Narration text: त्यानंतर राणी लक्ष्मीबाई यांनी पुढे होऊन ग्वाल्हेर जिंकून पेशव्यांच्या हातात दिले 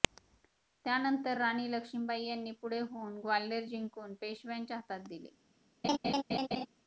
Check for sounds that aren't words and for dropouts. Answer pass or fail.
fail